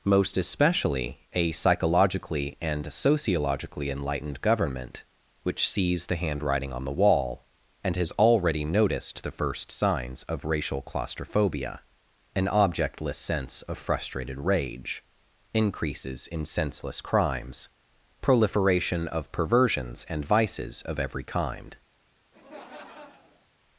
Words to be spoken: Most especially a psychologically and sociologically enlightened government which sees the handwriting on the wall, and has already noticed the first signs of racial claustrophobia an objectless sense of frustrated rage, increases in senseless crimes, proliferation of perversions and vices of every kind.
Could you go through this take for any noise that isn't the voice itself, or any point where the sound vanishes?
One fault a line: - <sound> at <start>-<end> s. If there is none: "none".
- laugh at 22.3-23.5 s